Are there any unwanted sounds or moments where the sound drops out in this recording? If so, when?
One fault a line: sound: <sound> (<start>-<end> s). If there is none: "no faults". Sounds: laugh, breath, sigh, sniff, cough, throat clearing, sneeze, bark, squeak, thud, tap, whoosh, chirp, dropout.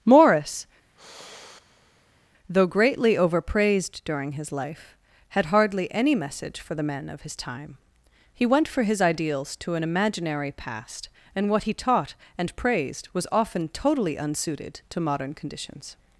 sound: sigh (1.0-2.3 s)